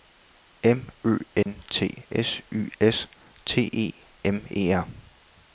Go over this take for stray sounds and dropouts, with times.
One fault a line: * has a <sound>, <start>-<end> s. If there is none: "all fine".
* has a dropout, 1.4-1.5 s